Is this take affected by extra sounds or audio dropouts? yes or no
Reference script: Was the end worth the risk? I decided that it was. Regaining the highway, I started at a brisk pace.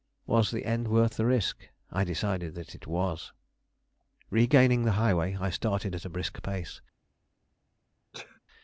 yes